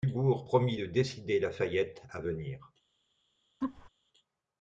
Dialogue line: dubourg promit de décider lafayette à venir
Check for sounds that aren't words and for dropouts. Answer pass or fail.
fail